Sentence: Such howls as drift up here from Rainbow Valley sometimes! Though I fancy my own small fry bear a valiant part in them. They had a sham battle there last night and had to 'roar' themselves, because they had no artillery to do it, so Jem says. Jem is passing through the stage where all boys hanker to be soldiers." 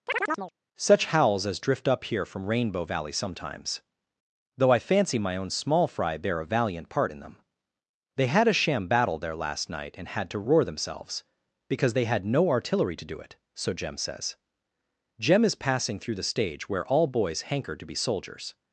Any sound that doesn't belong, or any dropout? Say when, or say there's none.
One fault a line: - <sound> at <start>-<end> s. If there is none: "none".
- chirp at 0.1-0.5 s